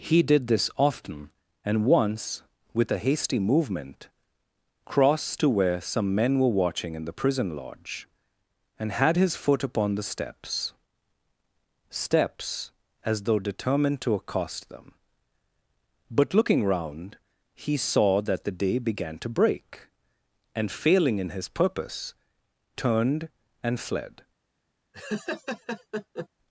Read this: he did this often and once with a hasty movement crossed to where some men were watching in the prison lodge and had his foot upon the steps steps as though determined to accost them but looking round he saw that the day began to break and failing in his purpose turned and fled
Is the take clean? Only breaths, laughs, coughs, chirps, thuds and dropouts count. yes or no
no